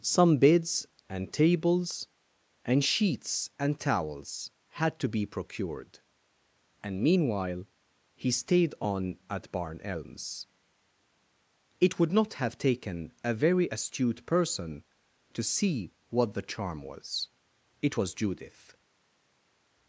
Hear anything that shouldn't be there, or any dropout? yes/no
no